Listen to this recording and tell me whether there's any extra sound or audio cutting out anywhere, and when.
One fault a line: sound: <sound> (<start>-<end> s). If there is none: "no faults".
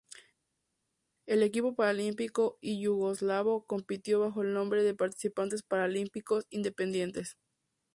no faults